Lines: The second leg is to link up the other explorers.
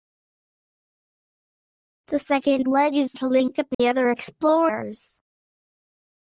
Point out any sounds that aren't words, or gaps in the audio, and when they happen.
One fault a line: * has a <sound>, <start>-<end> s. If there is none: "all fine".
* has a dropout, 3.7-3.8 s